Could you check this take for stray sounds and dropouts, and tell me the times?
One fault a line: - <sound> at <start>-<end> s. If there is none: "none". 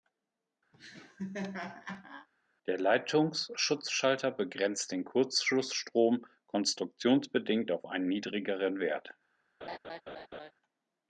- laugh at 0.7-2.3 s
- laugh at 9.6-10.5 s